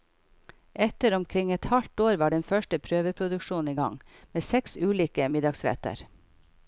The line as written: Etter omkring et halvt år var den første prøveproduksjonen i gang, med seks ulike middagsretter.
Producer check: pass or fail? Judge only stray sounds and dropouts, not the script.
pass